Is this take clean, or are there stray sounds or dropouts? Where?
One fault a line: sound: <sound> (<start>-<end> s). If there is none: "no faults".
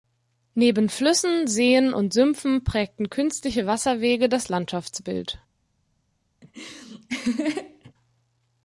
sound: laugh (6.4-7.9 s)